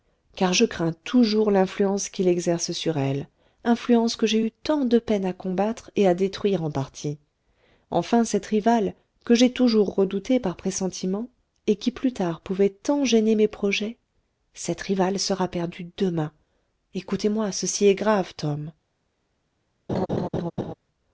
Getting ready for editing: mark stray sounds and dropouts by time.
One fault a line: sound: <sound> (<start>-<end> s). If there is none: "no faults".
sound: laugh (19.9-20.7 s)